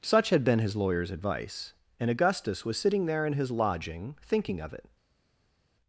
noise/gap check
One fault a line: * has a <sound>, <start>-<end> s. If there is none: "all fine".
all fine